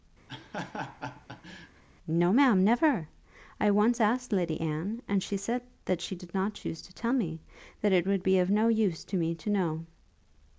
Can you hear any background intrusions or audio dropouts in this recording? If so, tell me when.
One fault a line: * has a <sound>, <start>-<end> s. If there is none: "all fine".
* has a laugh, 0.3-1.8 s